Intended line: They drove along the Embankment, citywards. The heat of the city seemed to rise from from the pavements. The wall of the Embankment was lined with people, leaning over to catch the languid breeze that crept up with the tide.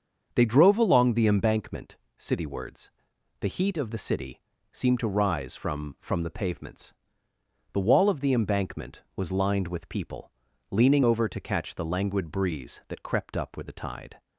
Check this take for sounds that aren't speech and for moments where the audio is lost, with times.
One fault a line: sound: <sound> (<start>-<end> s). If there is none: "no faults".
no faults